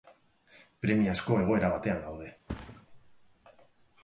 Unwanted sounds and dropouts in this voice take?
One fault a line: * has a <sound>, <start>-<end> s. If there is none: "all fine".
* has a thud, 2.5-2.9 s